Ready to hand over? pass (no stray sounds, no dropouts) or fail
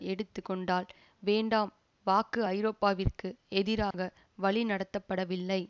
fail